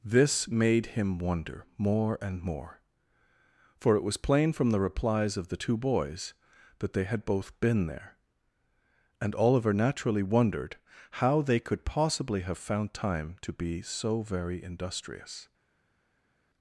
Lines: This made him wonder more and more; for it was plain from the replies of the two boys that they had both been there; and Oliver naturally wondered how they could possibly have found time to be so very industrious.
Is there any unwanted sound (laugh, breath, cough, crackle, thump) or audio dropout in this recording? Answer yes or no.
no